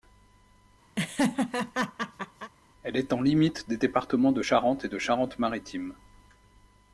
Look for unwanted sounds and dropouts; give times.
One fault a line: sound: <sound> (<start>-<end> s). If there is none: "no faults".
sound: laugh (1.0-2.5 s)